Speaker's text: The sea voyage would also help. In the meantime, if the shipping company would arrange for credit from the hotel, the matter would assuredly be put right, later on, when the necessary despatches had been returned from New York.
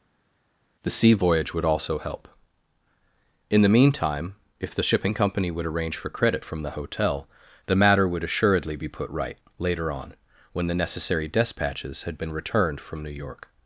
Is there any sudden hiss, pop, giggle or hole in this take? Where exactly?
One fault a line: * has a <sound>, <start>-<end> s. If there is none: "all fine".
all fine